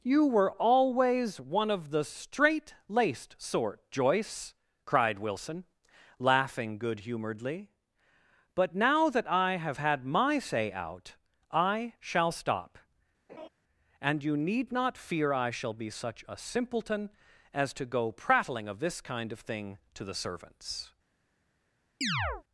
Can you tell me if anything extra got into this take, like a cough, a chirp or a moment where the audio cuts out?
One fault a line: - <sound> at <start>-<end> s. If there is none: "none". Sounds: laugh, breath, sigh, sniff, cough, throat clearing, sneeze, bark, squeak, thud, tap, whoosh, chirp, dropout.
- laugh at 13.3-13.5 s
- chirp at 22.0-22.4 s